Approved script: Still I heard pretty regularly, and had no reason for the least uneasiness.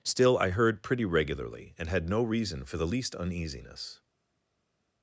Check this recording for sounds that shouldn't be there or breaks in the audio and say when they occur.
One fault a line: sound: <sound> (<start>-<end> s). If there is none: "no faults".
no faults